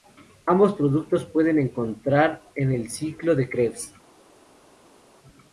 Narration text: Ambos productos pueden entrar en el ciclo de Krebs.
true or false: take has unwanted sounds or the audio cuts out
false